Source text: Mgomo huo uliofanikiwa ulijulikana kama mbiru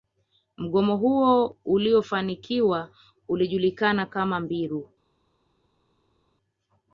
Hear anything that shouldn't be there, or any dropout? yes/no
no